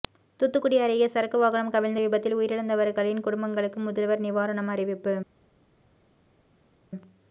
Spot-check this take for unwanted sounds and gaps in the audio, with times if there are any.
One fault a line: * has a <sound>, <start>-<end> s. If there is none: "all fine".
all fine